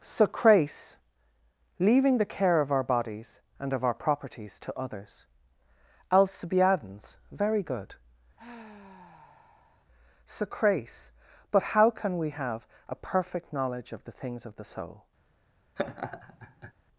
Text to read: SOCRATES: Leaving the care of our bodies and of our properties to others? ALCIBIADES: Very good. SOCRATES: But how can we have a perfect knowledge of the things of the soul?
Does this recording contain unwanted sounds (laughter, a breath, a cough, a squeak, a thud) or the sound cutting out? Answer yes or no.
yes